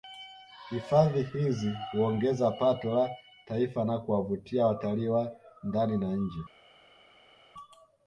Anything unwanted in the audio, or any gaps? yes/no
no